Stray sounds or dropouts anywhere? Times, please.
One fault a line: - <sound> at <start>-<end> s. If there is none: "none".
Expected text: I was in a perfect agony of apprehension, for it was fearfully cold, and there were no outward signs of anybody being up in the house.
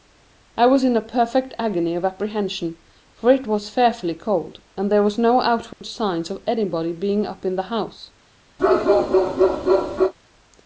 - dropout at 5.7-5.8 s
- bark at 8.6-10.1 s